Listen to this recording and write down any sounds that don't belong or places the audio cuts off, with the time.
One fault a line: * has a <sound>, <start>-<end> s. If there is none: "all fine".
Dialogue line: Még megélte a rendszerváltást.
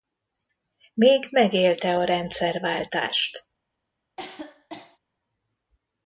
* has a cough, 4.2-5.0 s